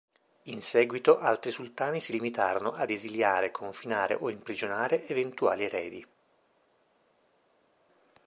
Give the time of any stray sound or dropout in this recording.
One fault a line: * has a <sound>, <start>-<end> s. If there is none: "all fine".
all fine